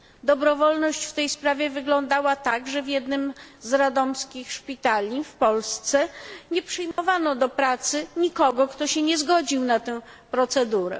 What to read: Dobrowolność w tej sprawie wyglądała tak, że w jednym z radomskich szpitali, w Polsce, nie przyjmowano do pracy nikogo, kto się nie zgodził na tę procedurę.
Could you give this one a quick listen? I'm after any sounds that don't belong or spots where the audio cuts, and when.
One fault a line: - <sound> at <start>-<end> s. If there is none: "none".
- dropout at 6.9-7.0 s